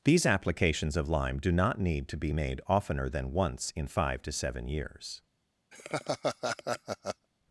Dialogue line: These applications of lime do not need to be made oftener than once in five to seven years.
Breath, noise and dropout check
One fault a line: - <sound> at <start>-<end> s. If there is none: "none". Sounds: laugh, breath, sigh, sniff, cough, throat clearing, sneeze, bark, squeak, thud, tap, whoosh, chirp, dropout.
- laugh at 5.7-7.3 s